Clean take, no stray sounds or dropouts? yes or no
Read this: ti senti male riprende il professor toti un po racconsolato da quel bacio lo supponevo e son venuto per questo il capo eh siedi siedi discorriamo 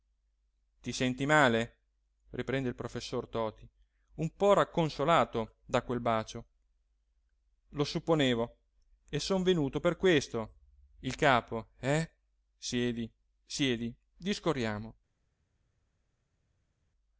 yes